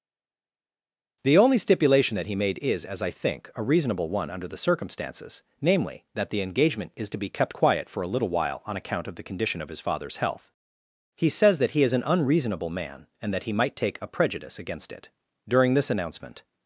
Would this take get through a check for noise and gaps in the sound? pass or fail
pass